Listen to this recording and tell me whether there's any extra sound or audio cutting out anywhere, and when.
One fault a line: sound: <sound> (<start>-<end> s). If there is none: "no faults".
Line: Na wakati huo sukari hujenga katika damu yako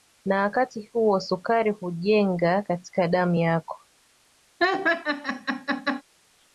sound: laugh (4.6-6.0 s)